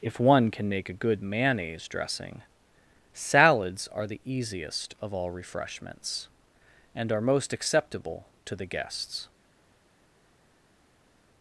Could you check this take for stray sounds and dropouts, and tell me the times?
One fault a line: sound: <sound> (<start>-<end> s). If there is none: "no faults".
no faults